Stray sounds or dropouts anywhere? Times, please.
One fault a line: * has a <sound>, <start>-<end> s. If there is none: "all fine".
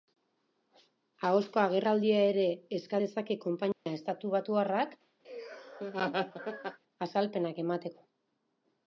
* has a dropout, 3.7-3.9 s
* has a laugh, 5.2-6.8 s